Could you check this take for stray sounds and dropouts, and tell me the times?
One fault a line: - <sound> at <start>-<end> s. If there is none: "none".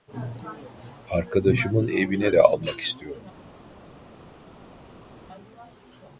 none